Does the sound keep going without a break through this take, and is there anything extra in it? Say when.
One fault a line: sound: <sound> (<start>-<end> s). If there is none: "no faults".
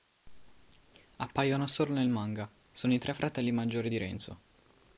no faults